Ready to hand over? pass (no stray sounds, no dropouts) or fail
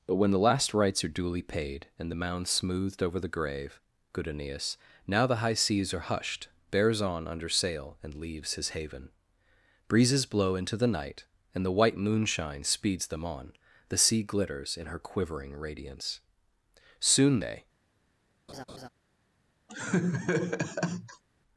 fail